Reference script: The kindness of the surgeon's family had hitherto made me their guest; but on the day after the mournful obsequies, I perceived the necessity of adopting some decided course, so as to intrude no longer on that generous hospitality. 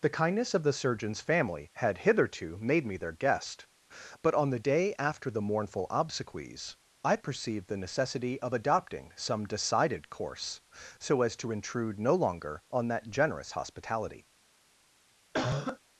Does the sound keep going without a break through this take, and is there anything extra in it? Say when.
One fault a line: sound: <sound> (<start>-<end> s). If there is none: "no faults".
sound: cough (15.3-15.8 s)